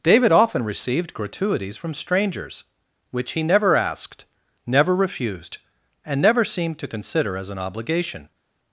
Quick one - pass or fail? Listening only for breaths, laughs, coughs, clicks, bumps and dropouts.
pass